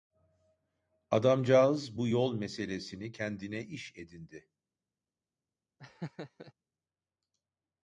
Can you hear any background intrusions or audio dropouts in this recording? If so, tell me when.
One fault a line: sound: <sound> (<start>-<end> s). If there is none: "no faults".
sound: laugh (5.8-6.5 s)